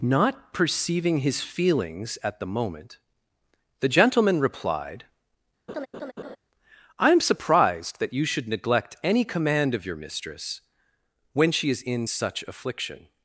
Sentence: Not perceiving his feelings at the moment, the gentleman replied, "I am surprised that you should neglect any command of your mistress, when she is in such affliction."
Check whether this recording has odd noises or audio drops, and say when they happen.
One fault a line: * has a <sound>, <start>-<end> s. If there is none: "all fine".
* has a laugh, 5.7-6.4 s